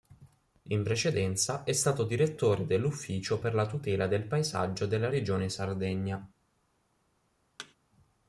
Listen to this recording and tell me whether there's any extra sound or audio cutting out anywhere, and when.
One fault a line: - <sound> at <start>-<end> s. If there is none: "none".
- thud at 7.6-7.7 s